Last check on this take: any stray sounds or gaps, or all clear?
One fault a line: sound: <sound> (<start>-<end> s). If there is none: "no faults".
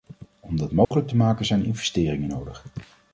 sound: dropout (0.8-0.9 s)